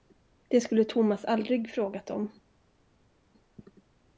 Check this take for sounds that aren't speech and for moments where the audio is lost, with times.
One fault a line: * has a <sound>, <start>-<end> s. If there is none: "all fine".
all fine